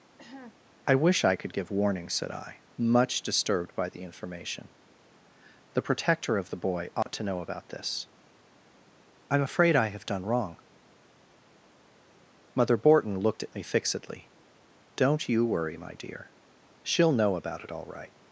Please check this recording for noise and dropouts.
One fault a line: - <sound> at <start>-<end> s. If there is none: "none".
- cough at 0.2-0.6 s
- dropout at 7.0-7.1 s